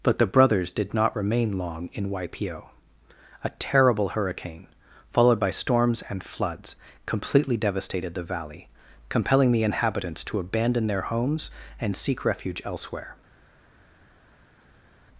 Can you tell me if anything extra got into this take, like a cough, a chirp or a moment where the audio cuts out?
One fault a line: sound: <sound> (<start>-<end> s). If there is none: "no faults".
no faults